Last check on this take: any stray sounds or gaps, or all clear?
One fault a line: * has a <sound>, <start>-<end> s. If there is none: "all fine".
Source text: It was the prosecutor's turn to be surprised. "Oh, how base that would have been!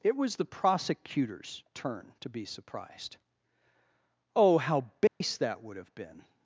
* has a dropout, 5.1-5.2 s